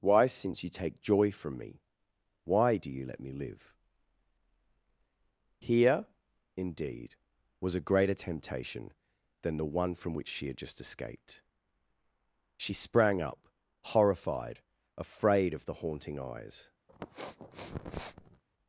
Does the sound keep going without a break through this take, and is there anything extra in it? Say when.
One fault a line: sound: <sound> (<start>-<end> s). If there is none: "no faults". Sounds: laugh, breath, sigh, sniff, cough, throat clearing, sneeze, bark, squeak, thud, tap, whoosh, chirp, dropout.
sound: sniff (16.9-18.4 s)